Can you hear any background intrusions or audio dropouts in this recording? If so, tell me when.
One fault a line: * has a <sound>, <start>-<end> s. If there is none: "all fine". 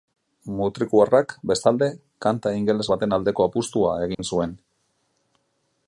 * has a dropout, 4.1-4.2 s